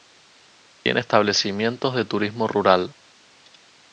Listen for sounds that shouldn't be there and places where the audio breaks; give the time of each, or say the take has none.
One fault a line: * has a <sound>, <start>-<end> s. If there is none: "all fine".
all fine